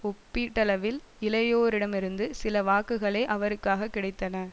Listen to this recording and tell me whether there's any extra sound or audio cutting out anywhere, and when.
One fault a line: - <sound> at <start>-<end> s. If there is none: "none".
none